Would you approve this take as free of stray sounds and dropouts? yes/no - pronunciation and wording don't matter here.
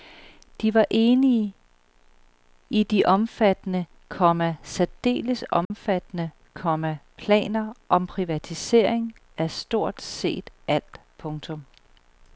no